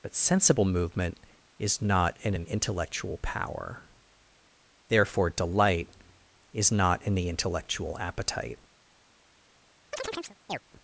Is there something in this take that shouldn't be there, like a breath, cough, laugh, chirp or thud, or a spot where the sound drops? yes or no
yes